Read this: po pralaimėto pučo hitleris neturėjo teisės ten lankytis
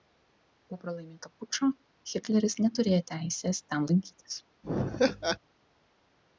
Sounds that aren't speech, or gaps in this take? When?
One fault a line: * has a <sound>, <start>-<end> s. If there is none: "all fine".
* has a laugh, 4.6-5.4 s